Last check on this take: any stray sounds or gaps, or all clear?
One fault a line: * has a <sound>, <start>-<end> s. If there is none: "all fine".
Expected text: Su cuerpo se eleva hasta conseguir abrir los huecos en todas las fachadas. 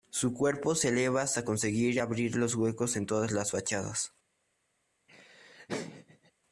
* has a laugh, 5.1-6.3 s